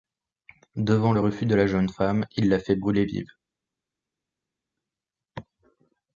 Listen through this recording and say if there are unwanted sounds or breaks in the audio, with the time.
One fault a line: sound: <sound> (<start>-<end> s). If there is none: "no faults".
no faults